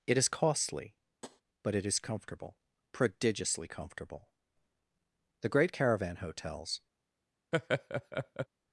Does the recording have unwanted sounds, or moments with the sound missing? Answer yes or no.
yes